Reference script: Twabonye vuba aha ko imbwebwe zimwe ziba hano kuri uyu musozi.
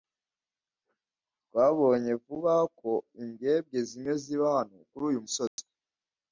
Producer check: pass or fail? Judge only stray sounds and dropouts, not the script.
fail